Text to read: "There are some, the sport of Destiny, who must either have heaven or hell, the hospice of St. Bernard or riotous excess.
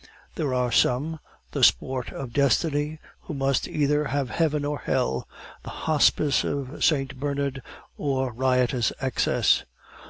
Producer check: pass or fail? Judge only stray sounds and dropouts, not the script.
pass